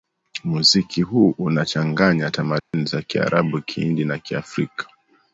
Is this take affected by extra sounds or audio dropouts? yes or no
yes